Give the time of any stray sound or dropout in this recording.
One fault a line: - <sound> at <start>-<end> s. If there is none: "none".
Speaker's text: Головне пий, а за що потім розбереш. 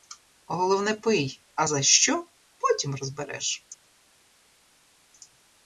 none